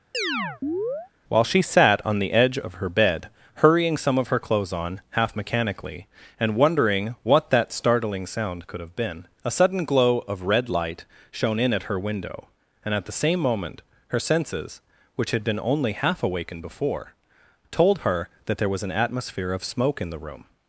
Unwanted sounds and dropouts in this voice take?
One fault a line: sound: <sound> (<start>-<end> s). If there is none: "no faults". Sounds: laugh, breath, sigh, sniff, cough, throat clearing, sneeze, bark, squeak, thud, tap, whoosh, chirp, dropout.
sound: chirp (0.1-1.1 s)